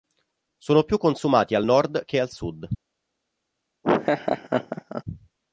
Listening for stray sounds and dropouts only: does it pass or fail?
fail